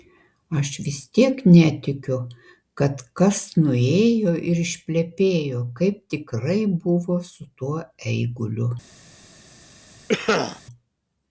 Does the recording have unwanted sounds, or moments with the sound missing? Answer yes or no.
yes